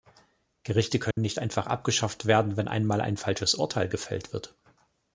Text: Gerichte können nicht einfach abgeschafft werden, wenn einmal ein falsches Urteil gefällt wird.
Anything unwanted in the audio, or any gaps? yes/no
yes